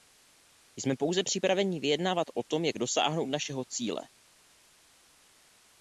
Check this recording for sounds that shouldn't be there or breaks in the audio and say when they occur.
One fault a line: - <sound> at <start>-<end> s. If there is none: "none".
none